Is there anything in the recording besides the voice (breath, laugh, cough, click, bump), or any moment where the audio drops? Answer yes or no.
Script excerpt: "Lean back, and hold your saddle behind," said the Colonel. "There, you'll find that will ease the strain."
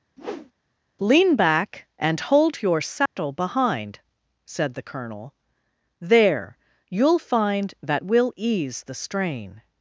yes